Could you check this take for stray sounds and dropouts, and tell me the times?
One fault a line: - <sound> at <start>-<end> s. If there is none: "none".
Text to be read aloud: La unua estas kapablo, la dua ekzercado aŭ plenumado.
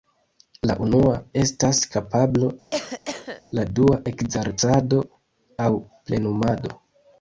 - cough at 2.7-3.4 s